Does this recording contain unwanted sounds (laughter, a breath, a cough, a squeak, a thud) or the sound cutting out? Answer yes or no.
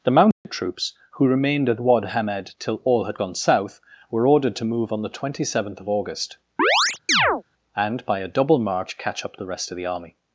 yes